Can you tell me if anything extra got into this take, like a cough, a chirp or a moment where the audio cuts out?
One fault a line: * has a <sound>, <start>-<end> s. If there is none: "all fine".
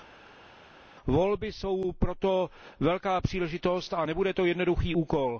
all fine